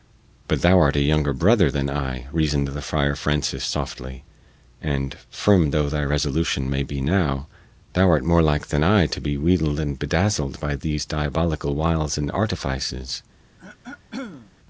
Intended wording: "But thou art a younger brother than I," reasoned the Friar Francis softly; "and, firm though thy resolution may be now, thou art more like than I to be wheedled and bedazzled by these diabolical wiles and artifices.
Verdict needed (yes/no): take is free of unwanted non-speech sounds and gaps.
no